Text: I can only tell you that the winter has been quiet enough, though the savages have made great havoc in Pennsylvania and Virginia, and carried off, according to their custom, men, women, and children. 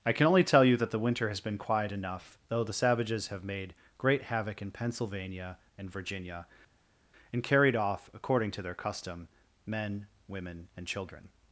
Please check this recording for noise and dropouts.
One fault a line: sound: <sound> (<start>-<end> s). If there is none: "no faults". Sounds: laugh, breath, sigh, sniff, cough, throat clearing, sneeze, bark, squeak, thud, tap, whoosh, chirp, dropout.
no faults